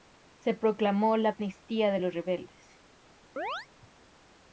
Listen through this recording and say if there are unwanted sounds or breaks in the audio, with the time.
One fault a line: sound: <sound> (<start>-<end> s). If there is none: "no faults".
sound: chirp (3.4-3.7 s)